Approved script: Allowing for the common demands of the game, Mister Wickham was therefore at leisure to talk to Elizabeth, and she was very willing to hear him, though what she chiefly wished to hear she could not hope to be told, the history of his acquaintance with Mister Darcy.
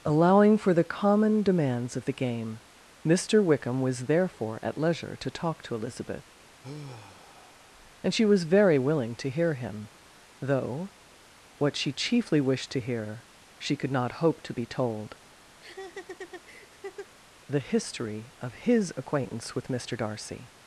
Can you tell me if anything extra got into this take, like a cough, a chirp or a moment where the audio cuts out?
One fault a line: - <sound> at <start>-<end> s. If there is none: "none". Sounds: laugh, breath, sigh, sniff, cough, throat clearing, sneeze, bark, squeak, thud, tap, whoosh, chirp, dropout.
- sigh at 6.6-7.7 s
- laugh at 15.6-17.1 s